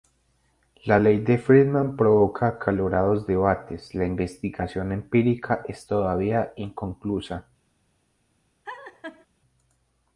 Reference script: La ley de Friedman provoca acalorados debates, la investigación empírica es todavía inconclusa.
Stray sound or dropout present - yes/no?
yes